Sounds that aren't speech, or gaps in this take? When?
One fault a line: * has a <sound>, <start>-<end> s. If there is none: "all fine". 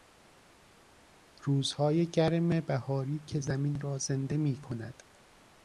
all fine